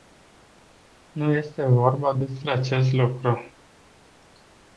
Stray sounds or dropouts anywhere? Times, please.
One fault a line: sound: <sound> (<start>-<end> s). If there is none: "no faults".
no faults